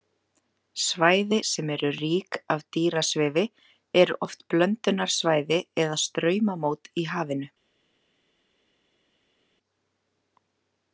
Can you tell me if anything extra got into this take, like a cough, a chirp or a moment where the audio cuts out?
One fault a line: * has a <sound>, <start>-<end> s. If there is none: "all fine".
all fine